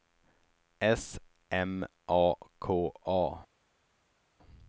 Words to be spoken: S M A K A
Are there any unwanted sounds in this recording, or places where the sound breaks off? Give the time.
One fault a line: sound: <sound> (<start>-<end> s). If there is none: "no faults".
no faults